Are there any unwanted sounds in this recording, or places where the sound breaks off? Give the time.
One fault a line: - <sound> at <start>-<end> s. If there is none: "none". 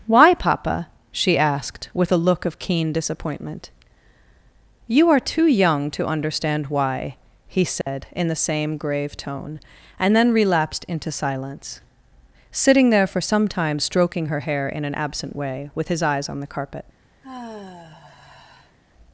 - dropout at 7.8-7.9 s
- sigh at 17.2-18.8 s